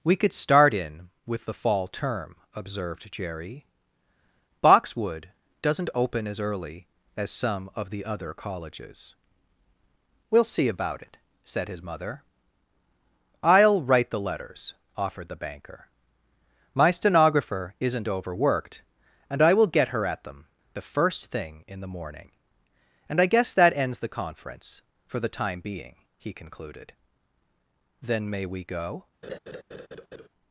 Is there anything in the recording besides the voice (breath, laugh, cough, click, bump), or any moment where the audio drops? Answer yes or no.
yes